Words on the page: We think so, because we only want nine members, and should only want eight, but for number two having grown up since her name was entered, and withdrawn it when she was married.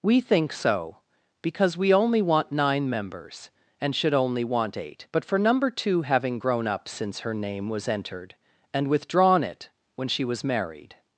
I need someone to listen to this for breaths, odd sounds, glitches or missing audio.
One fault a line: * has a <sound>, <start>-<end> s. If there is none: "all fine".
all fine